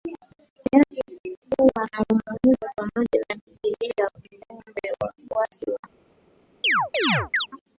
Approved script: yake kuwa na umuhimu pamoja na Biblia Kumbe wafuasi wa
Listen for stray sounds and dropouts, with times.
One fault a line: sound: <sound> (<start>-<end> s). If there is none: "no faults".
sound: chirp (6.6-7.5 s)